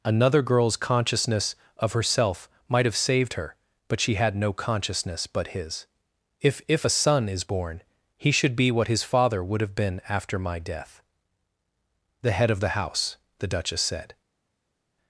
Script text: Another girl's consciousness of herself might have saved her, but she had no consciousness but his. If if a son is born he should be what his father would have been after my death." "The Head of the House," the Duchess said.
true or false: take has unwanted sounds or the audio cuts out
false